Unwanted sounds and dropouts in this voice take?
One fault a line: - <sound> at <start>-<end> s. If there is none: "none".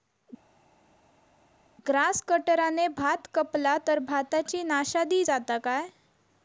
none